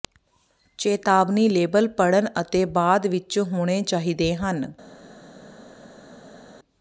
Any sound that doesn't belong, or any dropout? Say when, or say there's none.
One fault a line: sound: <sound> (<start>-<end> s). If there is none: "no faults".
no faults